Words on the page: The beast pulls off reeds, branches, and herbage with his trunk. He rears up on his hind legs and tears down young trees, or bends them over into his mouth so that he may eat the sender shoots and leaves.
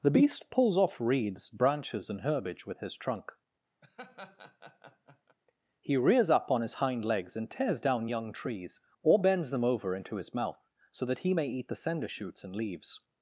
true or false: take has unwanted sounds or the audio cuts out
true